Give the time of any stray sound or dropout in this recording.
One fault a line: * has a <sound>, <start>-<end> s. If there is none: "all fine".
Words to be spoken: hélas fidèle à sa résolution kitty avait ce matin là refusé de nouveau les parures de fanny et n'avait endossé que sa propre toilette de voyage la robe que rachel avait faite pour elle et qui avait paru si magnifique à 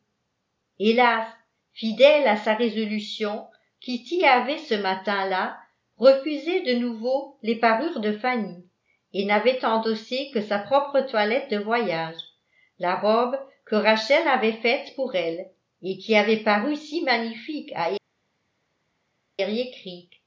all fine